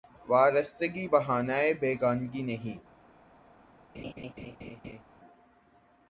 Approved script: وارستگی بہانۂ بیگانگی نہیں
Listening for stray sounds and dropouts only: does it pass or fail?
fail